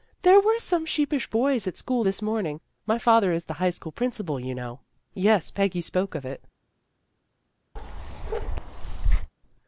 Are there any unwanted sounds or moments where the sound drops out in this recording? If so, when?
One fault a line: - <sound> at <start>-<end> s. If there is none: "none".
- bark at 7.8-9.3 s